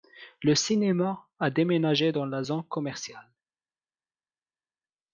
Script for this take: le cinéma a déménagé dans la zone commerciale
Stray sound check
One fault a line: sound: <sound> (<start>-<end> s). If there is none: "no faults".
no faults